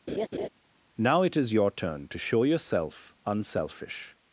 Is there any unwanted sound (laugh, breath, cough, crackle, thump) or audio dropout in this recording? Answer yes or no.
yes